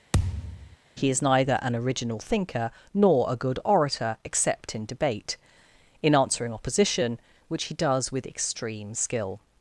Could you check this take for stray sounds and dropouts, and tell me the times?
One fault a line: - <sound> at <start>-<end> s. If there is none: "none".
- thud at 0.1-0.8 s